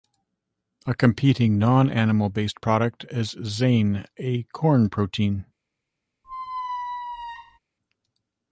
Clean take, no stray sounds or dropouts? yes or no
no